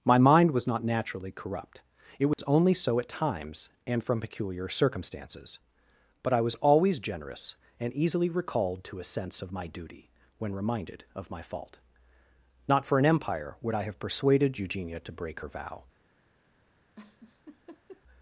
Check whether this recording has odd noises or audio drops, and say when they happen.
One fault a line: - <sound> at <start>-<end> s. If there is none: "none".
- dropout at 2.3-2.4 s
- laugh at 17.0-18.0 s